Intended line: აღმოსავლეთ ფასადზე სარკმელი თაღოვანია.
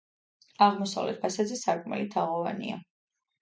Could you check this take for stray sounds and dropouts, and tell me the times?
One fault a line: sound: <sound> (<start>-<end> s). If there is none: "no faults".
no faults